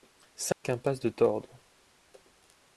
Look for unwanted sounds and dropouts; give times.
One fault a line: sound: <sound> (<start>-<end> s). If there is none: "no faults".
sound: dropout (0.5-0.6 s)